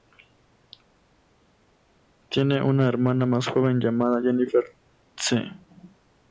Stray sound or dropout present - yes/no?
no